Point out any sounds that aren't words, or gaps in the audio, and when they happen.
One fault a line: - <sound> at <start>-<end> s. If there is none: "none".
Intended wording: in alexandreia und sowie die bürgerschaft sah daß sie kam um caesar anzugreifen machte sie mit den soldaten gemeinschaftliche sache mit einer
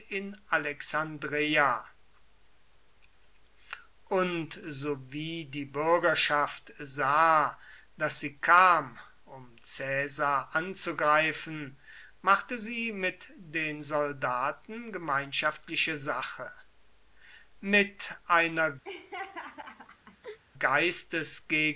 - laugh at 18.8-20.4 s